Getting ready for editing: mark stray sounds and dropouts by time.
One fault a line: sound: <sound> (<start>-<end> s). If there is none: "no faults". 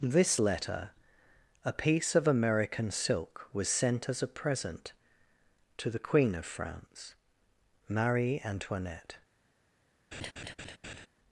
sound: laugh (10.1-11.1 s)